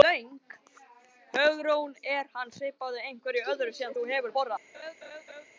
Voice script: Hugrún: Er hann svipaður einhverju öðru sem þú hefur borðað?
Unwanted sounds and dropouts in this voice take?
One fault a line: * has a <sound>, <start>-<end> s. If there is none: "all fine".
* has a laugh, 4.7-5.5 s